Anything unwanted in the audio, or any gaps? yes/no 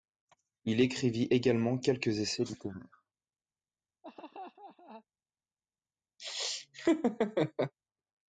yes